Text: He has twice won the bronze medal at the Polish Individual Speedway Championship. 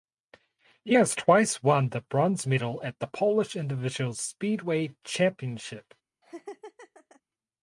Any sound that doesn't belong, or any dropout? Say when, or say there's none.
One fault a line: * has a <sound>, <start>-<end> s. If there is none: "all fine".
* has a laugh, 6.2-7.2 s